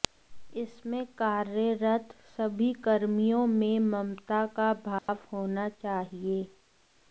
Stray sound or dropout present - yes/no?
yes